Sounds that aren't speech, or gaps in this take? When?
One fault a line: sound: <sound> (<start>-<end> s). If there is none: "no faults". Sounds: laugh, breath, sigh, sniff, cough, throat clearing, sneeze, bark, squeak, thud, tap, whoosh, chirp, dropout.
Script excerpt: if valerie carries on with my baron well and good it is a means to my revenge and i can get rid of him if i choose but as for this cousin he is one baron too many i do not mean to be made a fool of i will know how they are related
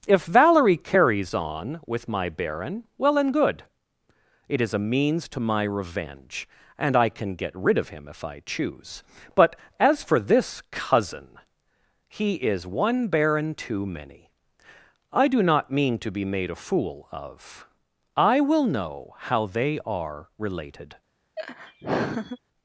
sound: laugh (21.4-22.4 s)